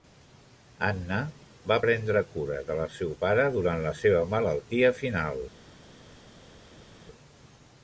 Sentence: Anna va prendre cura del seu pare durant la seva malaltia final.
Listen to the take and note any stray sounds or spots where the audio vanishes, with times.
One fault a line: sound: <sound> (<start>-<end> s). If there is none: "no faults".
no faults